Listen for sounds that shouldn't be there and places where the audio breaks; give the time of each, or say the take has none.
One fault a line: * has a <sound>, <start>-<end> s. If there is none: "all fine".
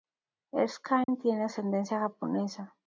* has a dropout, 1.0-1.1 s